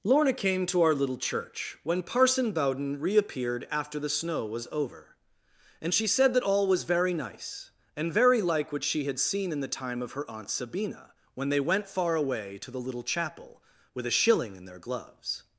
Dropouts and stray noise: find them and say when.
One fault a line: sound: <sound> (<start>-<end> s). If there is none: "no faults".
no faults